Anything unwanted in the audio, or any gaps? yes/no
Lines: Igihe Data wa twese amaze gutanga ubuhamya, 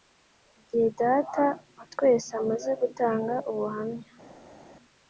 no